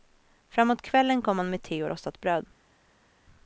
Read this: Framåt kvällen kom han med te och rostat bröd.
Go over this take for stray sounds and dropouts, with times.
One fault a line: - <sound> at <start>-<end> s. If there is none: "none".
none